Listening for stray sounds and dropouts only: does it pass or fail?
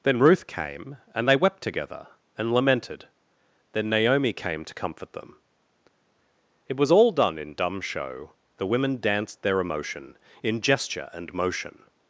pass